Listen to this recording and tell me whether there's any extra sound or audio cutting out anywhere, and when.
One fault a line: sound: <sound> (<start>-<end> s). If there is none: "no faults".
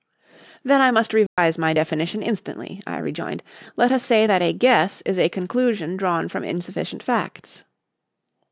sound: dropout (1.3-1.4 s)